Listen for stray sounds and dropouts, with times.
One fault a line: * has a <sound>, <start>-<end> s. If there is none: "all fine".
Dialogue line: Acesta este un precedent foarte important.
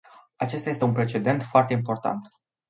all fine